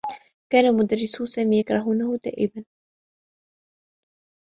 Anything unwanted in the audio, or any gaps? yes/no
no